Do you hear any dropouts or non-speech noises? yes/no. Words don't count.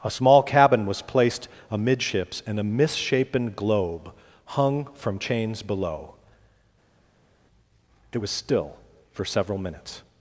no